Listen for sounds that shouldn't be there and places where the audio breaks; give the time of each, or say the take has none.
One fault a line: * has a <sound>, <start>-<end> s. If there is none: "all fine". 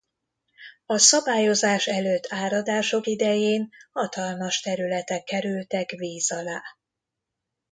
all fine